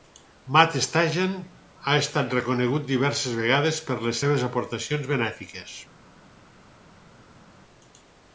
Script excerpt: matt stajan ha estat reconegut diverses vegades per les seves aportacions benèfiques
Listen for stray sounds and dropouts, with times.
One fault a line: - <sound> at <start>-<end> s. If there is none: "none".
none